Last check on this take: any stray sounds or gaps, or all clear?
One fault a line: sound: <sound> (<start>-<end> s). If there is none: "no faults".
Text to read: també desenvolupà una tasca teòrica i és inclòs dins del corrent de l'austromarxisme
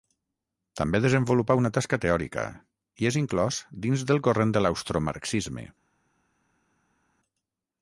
no faults